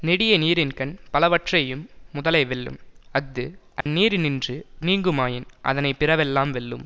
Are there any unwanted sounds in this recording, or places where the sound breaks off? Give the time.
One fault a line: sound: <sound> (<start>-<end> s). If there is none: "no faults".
sound: dropout (3.8-3.9 s)